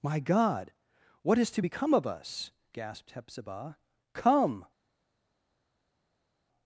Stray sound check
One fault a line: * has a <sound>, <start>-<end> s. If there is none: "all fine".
all fine